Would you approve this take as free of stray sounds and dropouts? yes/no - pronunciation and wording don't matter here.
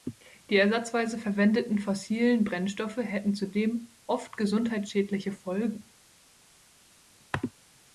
yes